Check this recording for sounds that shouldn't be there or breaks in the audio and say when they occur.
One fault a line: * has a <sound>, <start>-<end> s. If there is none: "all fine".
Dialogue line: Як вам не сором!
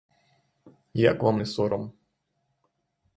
all fine